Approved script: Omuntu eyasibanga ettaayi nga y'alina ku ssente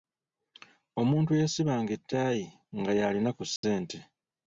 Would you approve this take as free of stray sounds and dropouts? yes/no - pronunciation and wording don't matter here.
no